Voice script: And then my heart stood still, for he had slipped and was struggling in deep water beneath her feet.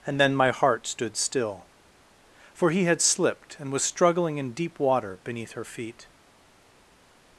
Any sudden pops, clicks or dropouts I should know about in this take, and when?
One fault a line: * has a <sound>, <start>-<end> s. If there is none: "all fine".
all fine